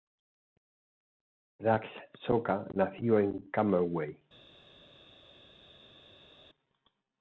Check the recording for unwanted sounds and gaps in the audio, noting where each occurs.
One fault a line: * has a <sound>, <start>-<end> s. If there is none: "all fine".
all fine